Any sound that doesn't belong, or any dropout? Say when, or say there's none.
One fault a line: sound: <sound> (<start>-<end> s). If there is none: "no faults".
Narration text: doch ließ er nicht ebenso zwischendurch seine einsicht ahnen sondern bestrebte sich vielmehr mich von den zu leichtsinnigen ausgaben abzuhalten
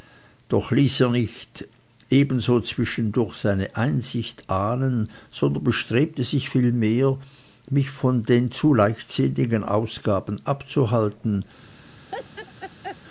sound: laugh (12.1-13.0 s)